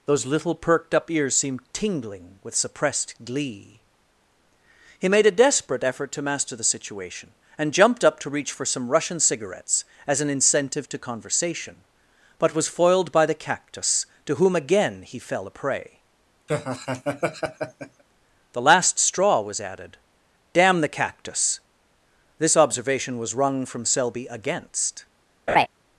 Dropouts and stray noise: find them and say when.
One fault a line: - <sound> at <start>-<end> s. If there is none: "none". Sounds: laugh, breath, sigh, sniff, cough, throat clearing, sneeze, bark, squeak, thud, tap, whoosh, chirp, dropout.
- laugh at 16.5-18.0 s
- laugh at 25.5-25.7 s